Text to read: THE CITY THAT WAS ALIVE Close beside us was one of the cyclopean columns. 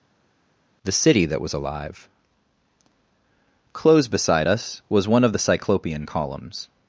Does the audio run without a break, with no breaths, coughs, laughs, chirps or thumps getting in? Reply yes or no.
yes